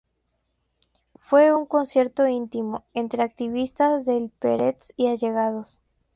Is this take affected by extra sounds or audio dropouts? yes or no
no